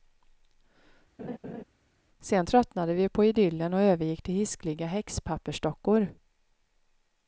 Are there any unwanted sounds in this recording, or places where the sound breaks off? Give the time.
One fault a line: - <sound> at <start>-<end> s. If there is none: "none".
- laugh at 1.2-1.6 s